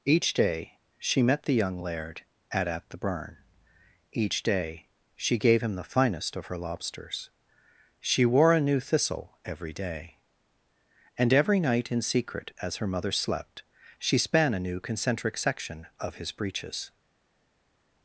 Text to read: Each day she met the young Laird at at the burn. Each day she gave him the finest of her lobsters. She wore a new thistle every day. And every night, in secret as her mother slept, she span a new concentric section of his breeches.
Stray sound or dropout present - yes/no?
no